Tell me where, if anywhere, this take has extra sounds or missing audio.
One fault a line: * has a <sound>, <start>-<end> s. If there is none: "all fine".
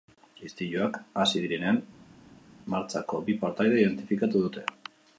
all fine